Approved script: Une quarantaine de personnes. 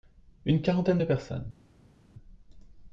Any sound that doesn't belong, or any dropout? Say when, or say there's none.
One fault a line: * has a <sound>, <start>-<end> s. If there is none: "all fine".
all fine